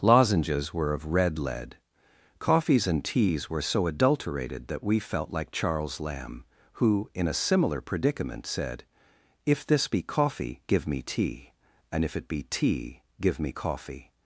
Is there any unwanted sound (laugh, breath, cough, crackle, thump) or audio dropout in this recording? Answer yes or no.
no